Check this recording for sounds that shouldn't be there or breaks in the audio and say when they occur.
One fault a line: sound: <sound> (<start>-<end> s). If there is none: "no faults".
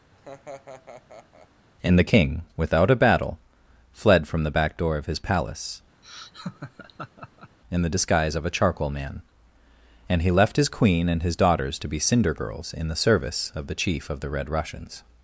sound: laugh (0.1-1.5 s)
sound: laugh (6.0-7.6 s)